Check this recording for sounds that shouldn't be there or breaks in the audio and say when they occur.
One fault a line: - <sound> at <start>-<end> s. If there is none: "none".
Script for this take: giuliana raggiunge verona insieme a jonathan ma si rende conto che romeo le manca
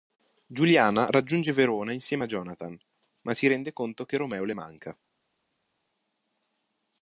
none